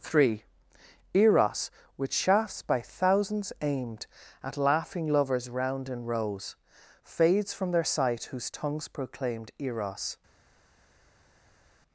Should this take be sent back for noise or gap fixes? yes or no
no